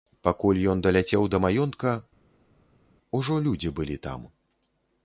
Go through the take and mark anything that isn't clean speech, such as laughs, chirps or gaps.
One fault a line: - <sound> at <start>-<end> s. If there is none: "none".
none